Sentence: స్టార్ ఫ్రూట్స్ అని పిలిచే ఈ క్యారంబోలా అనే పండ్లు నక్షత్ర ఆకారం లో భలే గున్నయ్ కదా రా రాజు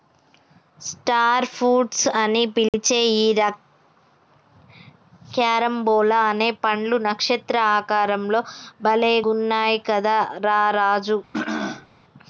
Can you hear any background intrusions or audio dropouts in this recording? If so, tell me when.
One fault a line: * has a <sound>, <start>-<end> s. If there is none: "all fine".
* has a dropout, 2.7-2.7 s
* has a throat clearing, 11.3-11.9 s